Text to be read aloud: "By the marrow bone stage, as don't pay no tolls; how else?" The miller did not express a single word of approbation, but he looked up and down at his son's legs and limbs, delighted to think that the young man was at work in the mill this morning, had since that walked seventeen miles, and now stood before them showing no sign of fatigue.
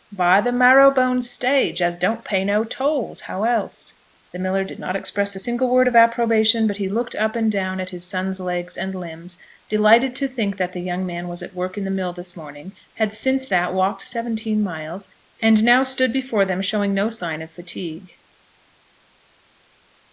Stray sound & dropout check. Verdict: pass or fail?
pass